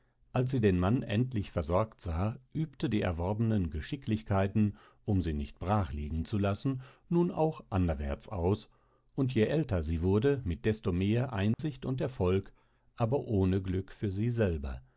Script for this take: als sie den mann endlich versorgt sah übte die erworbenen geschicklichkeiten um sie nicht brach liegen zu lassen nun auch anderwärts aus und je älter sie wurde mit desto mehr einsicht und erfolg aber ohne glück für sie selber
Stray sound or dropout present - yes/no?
yes